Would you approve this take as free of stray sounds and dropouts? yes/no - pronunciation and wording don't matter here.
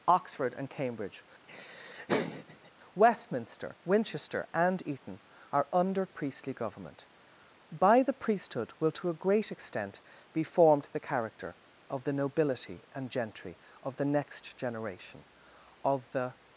no